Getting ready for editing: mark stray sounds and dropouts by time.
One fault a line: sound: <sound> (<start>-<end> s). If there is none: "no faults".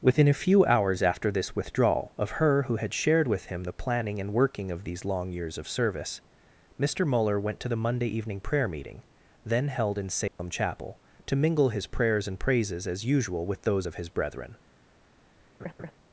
sound: dropout (10.3-10.4 s)
sound: laugh (15.6-15.9 s)